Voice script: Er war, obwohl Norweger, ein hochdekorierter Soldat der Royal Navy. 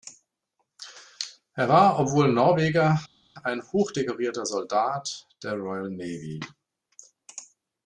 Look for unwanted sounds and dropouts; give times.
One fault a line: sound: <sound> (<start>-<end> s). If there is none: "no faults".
no faults